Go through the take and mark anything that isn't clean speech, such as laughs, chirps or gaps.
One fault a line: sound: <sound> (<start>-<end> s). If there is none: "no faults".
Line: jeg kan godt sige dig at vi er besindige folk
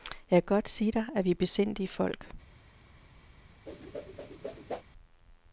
sound: whoosh (3.7-4.8 s)